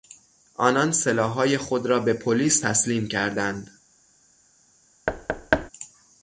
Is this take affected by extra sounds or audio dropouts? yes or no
yes